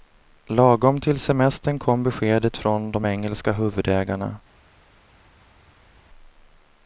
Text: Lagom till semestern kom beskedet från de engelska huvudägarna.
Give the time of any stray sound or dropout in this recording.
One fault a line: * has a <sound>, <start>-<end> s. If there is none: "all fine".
all fine